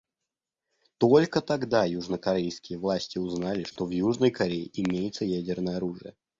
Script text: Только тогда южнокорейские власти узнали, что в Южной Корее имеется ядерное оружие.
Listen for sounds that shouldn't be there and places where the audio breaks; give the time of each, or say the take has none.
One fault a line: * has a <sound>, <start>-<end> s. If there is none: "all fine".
* has a dropout, 3.7-3.8 s